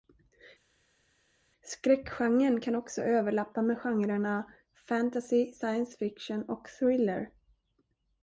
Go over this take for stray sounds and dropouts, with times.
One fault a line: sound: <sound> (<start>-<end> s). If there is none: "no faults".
no faults